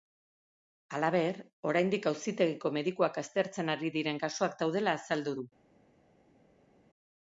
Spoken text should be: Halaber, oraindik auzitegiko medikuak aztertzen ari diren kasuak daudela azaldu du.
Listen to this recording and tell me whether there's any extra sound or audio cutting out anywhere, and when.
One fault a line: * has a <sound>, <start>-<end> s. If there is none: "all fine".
all fine